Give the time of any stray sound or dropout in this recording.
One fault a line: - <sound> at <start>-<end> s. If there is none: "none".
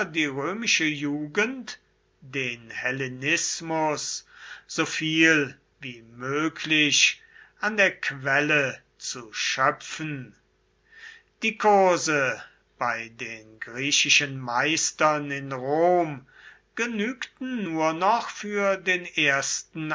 none